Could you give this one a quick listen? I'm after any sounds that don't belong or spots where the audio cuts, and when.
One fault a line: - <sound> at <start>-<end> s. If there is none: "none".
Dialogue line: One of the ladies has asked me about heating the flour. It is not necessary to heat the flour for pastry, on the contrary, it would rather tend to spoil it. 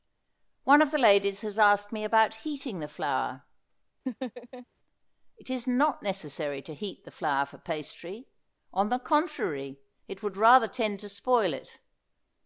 - laugh at 4.1-4.7 s